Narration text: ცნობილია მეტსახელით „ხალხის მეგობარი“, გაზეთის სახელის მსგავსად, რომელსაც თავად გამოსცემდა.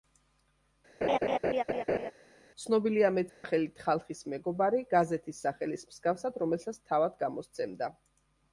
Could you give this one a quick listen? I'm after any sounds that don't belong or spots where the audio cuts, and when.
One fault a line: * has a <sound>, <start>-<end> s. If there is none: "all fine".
* has a laugh, 1.0-2.1 s
* has a dropout, 3.3-3.4 s